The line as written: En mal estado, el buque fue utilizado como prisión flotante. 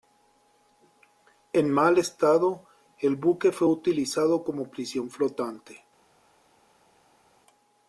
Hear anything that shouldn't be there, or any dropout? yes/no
no